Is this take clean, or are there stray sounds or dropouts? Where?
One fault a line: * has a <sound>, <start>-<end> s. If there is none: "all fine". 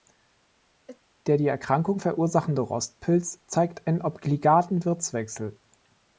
* has a sneeze, 0.9-1.0 s